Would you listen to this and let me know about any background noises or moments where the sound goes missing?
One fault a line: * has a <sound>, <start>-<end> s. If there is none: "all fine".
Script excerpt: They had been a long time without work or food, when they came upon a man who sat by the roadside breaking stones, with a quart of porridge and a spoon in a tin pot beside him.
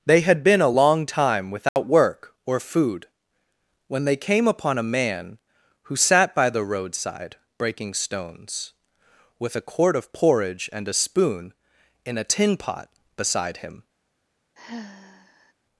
* has a dropout, 1.7-1.8 s
* has a sigh, 14.6-15.5 s